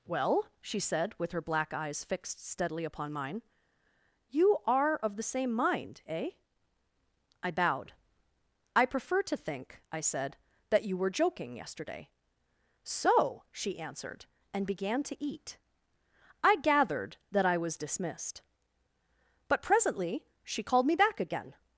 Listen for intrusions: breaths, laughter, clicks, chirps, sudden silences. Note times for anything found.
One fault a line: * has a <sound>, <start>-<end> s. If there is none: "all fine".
all fine